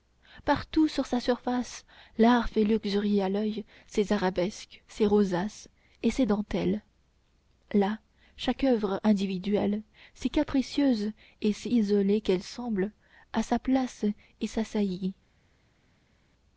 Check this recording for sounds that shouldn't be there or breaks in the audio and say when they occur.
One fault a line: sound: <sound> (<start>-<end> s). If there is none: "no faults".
no faults